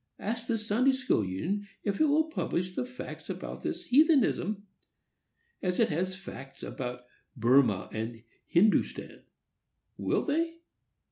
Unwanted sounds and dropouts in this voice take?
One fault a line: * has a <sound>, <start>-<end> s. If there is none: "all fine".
all fine